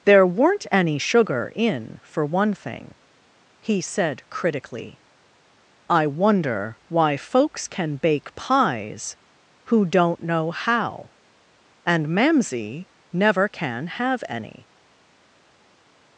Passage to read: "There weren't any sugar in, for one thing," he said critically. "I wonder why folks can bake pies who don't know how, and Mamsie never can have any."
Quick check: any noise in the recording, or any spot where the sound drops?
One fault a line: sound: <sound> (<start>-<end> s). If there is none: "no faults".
no faults